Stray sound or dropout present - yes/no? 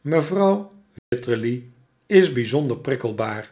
yes